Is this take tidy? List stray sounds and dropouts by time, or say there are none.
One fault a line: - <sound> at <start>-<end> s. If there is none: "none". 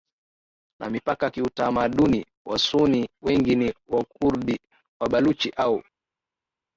none